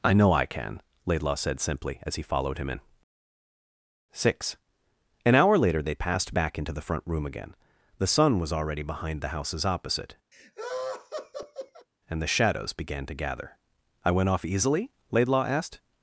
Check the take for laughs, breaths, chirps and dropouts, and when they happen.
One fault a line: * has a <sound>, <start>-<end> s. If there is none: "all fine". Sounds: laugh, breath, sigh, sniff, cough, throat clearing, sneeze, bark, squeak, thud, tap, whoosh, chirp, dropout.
* has a laugh, 10.3-11.9 s